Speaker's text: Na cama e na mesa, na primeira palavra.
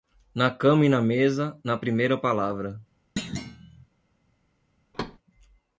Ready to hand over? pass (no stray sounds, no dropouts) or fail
fail